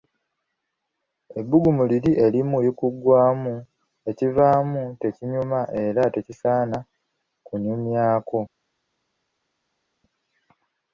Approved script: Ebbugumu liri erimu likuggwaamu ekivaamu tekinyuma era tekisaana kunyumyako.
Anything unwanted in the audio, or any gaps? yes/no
no